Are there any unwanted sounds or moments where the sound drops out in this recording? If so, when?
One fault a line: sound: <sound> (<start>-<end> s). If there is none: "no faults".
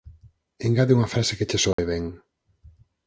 sound: dropout (1.7-1.8 s)